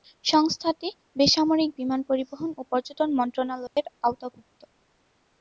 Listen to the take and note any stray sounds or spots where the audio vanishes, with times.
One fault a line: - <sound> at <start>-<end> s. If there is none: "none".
- dropout at 3.7-3.8 s